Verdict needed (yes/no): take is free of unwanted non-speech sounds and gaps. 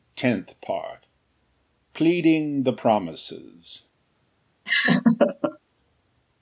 no